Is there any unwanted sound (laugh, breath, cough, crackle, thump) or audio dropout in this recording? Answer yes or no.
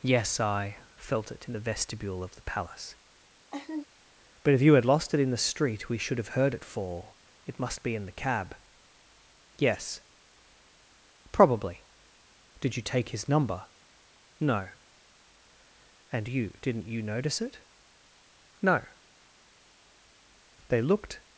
yes